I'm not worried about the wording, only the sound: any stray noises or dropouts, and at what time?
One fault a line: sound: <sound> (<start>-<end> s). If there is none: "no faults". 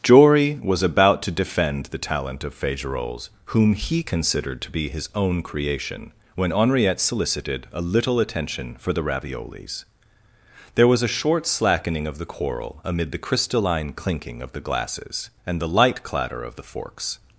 no faults